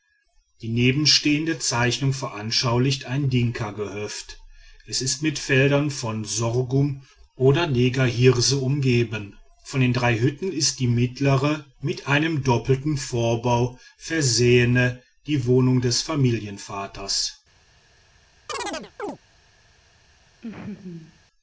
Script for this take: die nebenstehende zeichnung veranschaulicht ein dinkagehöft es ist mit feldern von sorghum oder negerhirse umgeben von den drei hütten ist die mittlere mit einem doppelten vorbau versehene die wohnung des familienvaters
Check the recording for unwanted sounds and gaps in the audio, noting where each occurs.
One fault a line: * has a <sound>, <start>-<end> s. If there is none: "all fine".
* has a chirp, 18.5-19.2 s
* has a laugh, 20.4-21.2 s